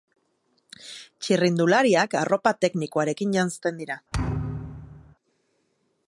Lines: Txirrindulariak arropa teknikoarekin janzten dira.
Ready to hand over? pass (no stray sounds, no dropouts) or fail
fail